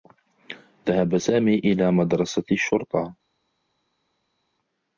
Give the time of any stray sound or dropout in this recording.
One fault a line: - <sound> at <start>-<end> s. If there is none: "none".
none